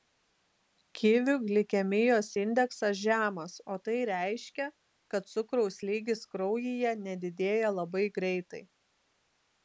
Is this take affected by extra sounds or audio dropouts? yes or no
no